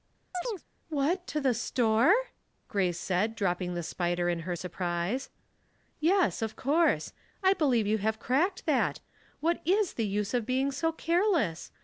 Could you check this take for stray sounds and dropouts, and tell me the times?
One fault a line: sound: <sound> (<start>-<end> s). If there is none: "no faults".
sound: chirp (0.3-0.6 s)